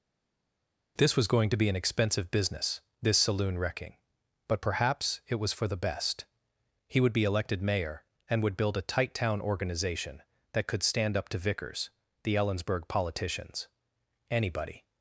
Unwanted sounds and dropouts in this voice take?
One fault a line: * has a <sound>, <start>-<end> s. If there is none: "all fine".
all fine